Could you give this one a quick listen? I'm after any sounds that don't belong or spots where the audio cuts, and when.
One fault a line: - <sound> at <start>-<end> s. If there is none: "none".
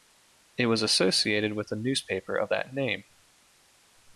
none